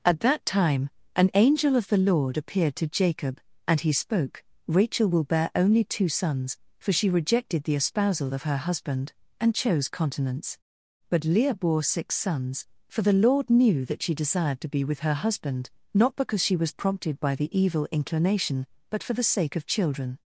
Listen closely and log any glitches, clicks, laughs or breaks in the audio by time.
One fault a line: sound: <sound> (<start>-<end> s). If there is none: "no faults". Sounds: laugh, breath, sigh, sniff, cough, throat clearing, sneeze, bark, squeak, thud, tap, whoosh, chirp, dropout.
no faults